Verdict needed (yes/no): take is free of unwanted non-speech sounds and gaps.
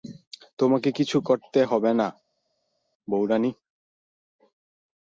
yes